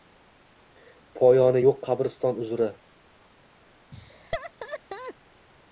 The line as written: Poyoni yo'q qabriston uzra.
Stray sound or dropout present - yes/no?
yes